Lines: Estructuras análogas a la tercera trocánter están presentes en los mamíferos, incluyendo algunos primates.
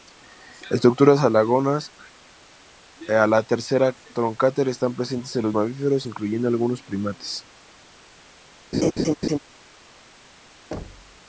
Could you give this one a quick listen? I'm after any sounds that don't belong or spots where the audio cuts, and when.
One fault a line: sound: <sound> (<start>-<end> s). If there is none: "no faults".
sound: laugh (8.7-9.4 s)
sound: thud (10.7-11.2 s)